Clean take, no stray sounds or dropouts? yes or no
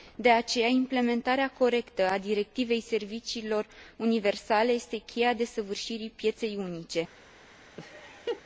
no